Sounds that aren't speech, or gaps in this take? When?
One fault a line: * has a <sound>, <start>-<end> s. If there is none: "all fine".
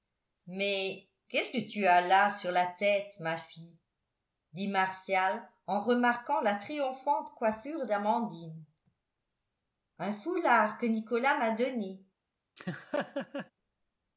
* has a laugh, 12.6-13.5 s